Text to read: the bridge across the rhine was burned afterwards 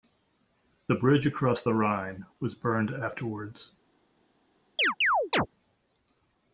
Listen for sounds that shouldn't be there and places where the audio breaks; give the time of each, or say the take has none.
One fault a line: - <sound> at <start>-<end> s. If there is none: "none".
- chirp at 4.8-5.5 s